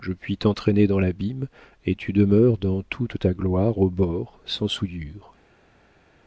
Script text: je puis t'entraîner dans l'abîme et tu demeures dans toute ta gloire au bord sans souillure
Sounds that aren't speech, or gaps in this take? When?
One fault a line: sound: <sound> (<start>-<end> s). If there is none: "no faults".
no faults